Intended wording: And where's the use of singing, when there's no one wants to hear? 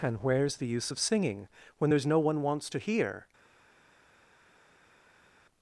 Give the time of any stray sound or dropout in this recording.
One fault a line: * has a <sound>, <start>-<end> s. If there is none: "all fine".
all fine